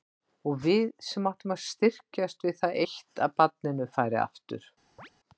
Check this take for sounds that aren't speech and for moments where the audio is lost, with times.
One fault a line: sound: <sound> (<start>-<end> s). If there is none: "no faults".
sound: chirp (5.0-5.1 s)